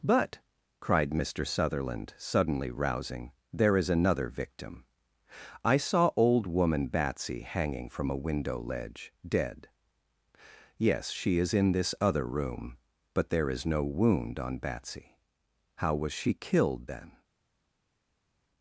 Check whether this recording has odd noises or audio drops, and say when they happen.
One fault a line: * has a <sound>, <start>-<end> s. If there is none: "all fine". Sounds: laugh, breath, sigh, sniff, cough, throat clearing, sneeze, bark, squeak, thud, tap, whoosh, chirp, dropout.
all fine